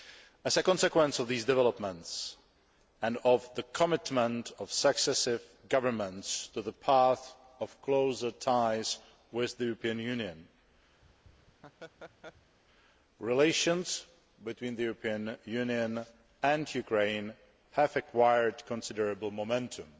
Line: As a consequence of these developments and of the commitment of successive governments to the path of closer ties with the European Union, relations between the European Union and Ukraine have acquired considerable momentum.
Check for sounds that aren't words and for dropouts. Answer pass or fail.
fail